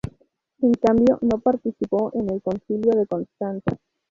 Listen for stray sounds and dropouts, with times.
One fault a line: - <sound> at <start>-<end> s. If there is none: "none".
none